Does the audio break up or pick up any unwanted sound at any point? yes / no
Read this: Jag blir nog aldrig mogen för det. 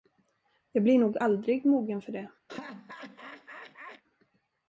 yes